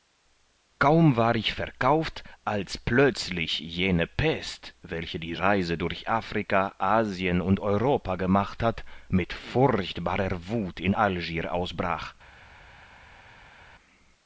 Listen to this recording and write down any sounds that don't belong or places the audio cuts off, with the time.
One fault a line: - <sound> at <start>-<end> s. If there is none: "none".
none